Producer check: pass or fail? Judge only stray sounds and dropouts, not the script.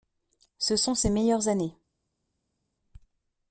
pass